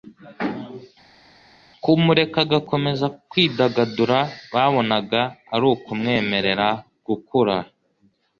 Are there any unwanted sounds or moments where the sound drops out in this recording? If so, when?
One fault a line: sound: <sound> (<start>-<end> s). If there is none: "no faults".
no faults